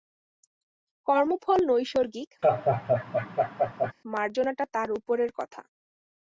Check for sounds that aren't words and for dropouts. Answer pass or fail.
fail